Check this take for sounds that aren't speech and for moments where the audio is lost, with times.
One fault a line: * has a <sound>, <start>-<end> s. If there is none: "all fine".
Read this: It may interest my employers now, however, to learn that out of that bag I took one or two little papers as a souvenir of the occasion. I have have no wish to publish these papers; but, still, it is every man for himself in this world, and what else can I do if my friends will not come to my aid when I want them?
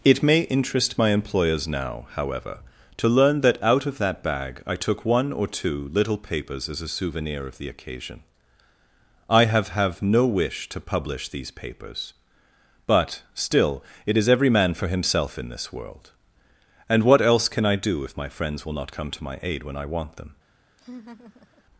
* has a laugh, 20.8-21.6 s